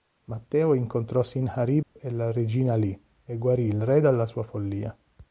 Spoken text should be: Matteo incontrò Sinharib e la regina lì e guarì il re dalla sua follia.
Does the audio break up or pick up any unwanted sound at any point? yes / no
yes